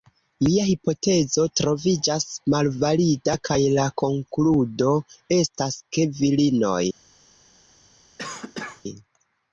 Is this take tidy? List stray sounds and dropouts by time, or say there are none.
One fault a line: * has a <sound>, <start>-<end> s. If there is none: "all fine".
* has a cough, 8.2-8.8 s